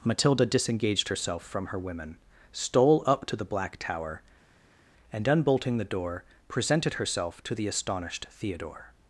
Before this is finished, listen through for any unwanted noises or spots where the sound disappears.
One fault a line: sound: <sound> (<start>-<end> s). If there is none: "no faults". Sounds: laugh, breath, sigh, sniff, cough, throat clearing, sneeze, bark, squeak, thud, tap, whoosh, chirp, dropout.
no faults